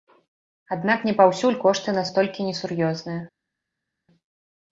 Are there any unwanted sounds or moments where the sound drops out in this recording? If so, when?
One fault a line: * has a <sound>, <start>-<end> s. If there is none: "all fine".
all fine